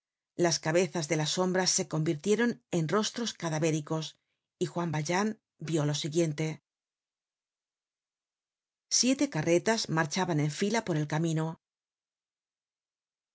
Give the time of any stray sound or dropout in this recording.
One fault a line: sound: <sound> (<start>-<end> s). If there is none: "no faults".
no faults